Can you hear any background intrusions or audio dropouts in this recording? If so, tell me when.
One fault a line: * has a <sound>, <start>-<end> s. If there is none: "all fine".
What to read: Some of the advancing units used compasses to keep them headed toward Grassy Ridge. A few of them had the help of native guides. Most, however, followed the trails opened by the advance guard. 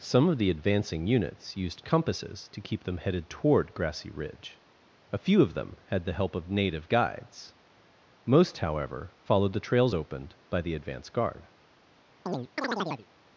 * has a chirp, 12.3-13.1 s